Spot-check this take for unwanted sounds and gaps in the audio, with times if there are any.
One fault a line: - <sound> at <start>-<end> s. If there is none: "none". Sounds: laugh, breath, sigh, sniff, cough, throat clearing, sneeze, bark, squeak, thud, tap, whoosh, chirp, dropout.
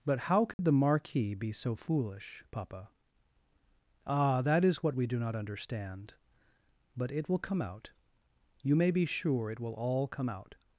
- dropout at 0.5-0.6 s